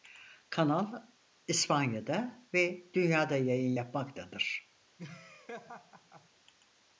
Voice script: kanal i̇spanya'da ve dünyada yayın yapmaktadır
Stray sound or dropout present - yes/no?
yes